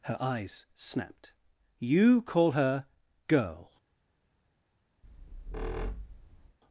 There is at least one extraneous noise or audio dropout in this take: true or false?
true